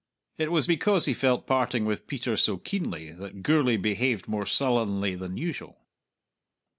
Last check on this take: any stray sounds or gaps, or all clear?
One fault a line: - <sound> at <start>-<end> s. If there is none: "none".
none